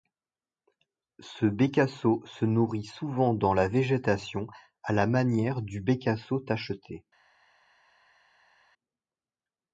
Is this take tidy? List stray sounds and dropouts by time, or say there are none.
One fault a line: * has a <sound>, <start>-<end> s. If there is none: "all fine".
all fine